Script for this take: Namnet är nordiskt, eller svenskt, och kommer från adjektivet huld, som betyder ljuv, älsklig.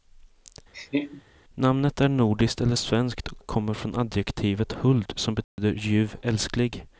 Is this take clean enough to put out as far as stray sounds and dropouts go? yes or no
no